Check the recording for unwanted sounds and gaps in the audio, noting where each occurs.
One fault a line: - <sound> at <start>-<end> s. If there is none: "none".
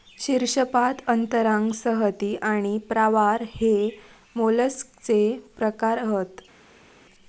none